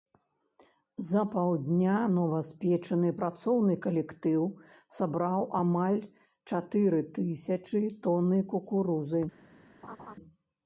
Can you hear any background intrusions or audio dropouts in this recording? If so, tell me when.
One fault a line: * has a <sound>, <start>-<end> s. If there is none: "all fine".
* has a laugh, 9.8-10.2 s